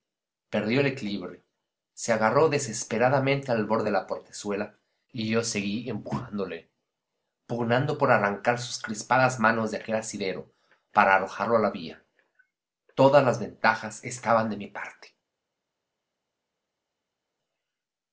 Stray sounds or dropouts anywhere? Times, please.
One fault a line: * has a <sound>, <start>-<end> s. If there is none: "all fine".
all fine